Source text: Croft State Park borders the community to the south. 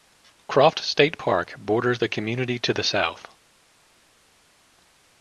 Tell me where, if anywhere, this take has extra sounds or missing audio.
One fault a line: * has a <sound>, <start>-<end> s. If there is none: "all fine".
all fine